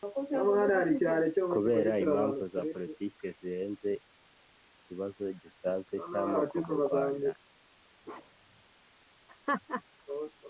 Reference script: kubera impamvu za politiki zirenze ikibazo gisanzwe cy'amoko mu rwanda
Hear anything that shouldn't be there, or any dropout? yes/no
yes